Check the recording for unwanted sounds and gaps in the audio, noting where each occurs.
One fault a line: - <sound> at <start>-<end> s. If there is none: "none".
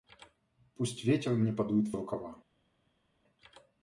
none